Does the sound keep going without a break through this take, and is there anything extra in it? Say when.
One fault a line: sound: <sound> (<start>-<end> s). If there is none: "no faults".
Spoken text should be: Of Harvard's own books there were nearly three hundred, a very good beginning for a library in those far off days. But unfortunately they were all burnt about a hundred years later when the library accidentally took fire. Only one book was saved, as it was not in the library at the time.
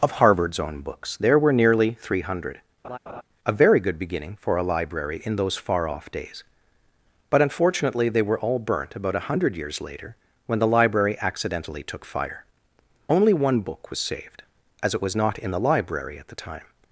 sound: laugh (2.8-3.2 s)